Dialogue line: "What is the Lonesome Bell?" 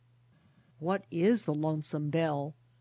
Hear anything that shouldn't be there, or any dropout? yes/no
no